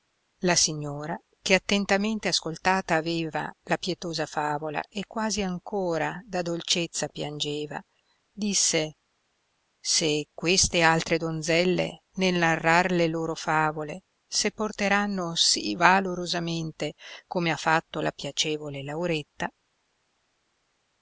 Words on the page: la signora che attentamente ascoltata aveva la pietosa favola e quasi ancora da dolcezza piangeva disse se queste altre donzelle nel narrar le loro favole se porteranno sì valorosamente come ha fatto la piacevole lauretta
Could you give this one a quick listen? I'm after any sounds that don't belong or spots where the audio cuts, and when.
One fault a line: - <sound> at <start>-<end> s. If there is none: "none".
none